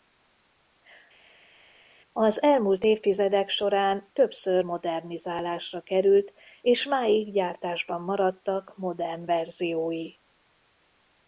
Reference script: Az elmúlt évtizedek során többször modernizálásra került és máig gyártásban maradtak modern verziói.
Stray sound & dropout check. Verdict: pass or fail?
pass